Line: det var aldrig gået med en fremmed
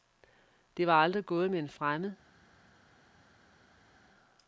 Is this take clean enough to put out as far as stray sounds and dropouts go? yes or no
yes